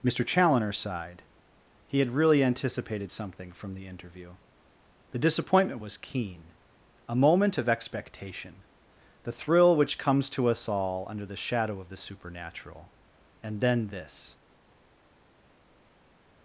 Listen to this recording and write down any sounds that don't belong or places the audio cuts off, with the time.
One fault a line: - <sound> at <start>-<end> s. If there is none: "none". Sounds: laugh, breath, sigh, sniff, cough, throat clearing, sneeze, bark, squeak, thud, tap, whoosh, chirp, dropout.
none